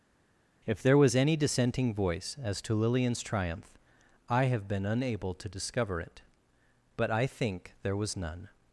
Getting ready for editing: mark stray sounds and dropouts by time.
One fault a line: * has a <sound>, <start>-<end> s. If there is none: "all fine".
all fine